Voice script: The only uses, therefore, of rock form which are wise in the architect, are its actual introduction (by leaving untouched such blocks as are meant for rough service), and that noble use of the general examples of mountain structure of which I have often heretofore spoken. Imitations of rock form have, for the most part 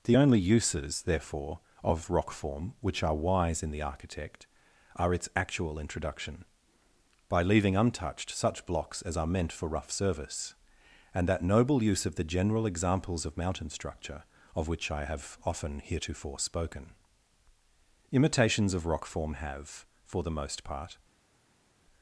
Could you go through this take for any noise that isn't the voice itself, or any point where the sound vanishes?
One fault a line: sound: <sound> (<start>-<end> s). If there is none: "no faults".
no faults